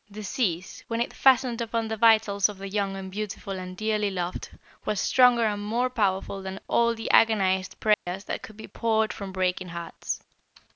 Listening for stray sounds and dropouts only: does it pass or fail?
fail